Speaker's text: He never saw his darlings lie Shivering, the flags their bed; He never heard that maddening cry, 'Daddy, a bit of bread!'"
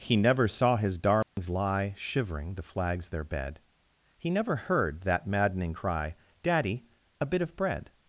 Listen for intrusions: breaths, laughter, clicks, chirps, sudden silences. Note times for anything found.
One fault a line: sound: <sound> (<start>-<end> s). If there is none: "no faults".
sound: dropout (1.2-1.4 s)